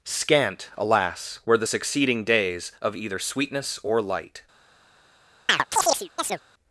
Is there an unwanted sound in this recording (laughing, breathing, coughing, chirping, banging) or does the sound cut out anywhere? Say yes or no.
yes